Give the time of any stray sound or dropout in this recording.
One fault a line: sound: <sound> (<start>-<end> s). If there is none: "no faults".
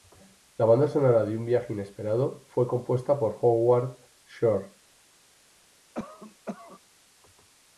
sound: cough (5.9-6.8 s)